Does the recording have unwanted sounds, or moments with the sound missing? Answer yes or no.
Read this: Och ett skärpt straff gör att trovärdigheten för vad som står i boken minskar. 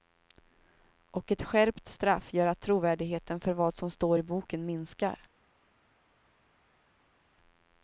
no